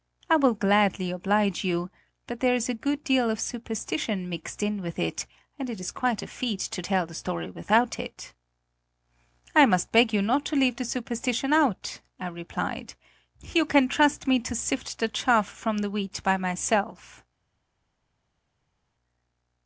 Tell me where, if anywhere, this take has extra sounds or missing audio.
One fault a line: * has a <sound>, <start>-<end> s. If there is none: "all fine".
all fine